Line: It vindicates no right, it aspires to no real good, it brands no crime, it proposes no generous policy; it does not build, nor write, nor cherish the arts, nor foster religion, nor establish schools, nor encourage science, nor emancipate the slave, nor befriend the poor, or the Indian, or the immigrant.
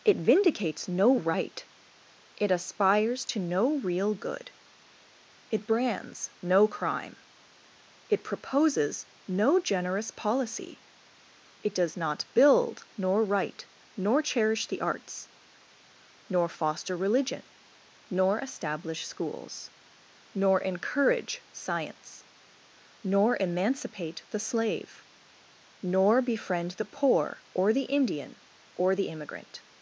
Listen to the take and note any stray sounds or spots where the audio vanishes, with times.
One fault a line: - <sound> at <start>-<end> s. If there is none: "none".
none